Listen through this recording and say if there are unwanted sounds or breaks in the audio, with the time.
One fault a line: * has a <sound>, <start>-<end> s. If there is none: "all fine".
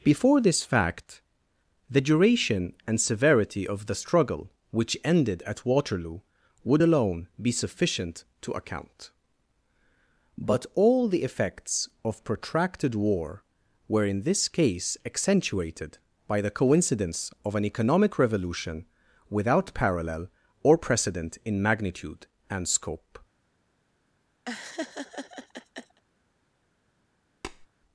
* has a laugh, 24.5-26.0 s
* has a tap, 27.4-27.7 s